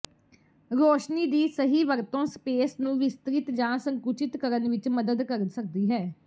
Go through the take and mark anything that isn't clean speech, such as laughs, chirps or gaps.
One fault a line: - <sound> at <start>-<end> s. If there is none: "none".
none